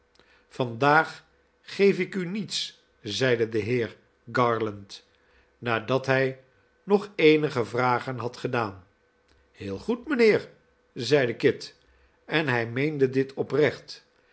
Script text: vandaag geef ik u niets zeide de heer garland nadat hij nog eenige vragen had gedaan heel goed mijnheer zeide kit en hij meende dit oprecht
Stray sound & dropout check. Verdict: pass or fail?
pass